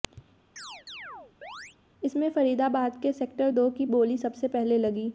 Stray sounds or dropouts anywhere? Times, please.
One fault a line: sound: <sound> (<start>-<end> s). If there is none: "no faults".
sound: chirp (0.6-1.8 s)